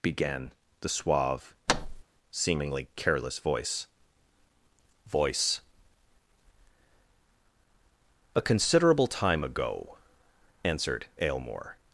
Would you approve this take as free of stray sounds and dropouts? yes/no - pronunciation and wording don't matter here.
no